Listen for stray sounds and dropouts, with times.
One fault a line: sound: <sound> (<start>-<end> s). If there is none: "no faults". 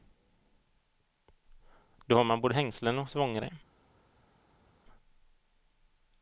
no faults